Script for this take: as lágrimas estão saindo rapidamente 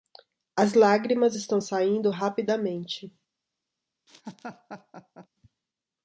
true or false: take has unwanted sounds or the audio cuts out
true